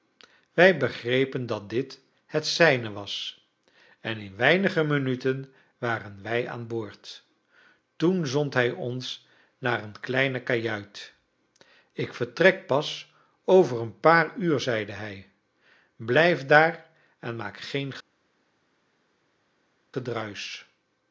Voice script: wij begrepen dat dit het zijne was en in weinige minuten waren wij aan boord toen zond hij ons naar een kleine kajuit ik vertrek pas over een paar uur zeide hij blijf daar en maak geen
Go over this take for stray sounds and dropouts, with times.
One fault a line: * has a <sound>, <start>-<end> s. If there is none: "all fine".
all fine